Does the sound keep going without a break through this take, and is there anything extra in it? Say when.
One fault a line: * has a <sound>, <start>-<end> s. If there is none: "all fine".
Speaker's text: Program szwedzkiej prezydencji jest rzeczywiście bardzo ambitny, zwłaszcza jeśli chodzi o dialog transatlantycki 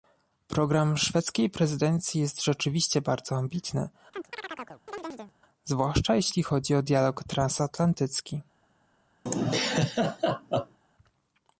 * has a chirp, 4.1-5.3 s
* has a laugh, 9.3-10.8 s